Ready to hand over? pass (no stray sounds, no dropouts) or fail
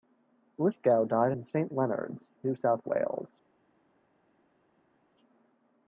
pass